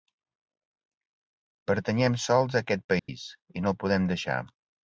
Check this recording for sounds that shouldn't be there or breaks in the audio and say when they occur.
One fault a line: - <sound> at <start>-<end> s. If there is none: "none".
- dropout at 3.0-3.1 s